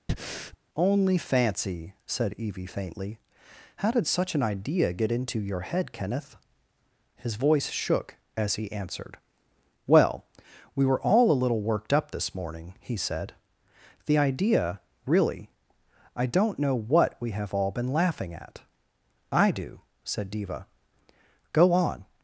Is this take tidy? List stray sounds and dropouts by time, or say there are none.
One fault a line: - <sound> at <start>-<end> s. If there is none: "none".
- breath at 0.1-0.6 s